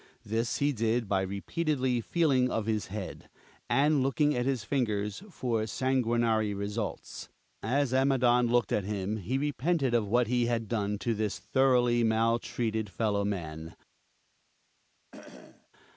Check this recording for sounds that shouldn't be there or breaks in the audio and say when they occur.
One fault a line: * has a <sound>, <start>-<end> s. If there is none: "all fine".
* has a cough, 15.1-15.7 s